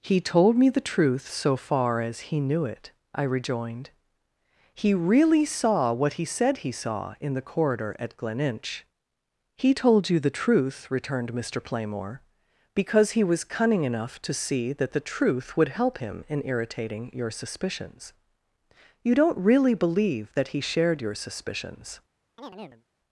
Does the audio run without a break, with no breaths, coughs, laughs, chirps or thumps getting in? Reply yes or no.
no